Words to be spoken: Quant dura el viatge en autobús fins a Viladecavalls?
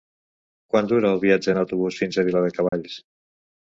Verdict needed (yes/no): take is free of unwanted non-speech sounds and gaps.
no